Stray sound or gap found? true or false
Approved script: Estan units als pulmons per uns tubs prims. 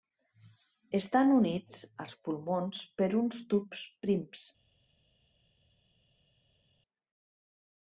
false